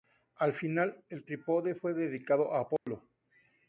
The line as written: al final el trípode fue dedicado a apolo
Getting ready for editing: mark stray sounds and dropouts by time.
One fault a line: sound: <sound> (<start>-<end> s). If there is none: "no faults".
sound: dropout (2.8-2.9 s)